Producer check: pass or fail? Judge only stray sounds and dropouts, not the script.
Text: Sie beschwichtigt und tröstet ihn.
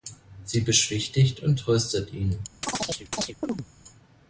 fail